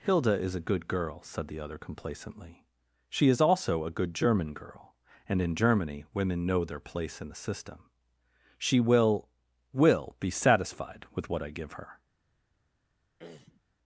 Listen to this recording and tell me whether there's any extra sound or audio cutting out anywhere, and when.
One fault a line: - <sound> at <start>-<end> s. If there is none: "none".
- throat clearing at 13.2-13.6 s